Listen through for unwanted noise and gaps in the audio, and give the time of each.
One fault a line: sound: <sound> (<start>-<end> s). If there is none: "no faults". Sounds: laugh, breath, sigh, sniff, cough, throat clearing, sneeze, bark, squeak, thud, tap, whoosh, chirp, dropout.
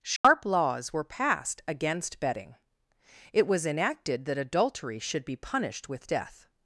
sound: dropout (0.2-0.2 s)